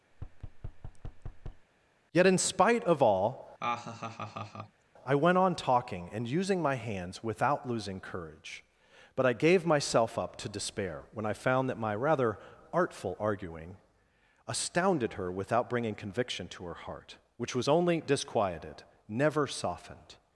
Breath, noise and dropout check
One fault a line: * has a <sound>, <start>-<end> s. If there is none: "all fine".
* has a thud, 0.1-1.7 s
* has a laugh, 3.6-4.8 s